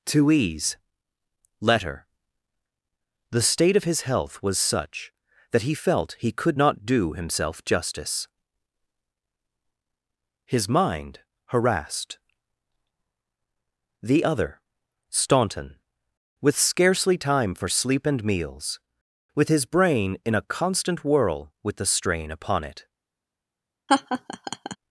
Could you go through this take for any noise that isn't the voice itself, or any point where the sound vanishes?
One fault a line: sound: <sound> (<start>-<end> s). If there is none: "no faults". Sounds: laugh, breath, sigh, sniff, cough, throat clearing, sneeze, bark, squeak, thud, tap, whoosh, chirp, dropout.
sound: laugh (23.9-24.8 s)